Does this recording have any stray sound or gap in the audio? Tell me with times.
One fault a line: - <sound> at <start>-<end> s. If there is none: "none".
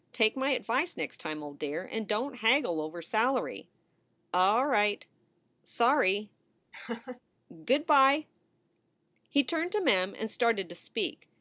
- laugh at 6.7-7.2 s